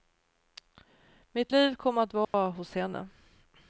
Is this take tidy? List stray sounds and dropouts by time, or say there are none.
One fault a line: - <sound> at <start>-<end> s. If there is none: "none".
- dropout at 2.2-2.3 s